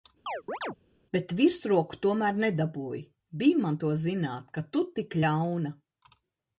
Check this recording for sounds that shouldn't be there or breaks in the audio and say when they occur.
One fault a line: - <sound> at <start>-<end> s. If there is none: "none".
- chirp at 0.3-0.8 s